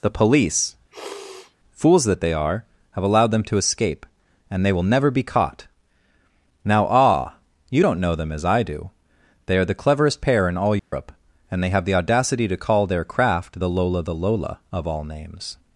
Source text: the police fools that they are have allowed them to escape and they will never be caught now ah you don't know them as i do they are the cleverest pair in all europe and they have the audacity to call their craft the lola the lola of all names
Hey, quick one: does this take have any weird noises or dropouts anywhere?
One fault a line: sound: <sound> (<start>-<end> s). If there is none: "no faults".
sound: sniff (0.9-1.6 s)
sound: dropout (10.8-10.9 s)